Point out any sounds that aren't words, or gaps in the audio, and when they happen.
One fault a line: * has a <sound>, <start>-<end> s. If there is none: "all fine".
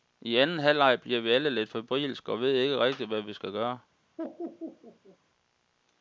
* has a laugh, 4.2-5.2 s